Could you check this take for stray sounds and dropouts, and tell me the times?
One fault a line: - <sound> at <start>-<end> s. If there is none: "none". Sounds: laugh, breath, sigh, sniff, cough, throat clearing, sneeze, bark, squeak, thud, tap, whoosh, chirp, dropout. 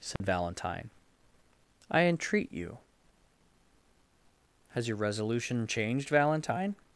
- dropout at 0.2-0.2 s